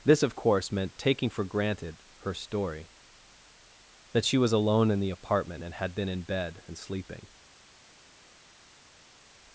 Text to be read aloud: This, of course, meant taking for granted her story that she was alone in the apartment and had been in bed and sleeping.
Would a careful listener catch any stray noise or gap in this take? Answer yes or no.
no